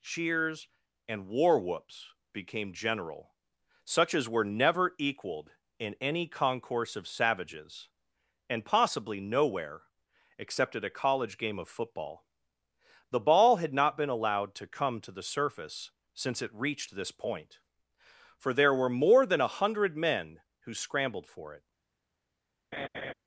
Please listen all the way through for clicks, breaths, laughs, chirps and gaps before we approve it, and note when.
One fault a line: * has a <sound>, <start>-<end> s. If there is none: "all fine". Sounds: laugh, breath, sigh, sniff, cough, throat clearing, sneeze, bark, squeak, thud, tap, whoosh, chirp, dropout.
* has a laugh, 22.7-23.1 s